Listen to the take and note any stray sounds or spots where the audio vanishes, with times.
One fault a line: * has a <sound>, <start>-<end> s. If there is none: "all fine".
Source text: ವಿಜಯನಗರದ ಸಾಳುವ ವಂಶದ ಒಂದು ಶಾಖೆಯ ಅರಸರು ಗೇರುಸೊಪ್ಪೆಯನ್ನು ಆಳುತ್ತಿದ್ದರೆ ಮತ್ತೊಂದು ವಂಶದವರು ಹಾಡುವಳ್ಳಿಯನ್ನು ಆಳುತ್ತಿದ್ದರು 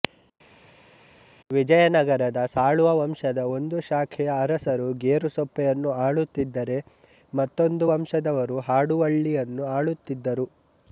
all fine